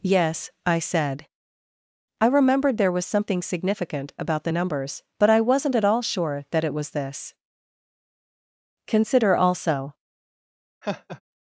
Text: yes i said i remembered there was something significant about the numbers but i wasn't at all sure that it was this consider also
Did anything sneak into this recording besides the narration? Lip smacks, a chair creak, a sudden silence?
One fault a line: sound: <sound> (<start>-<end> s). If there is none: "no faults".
sound: laugh (10.8-11.2 s)